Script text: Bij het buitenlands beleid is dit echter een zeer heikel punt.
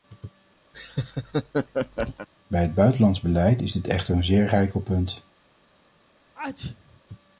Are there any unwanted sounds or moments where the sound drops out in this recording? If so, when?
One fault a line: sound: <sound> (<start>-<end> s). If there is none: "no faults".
sound: laugh (0.7-2.3 s)
sound: sneeze (6.4-7.0 s)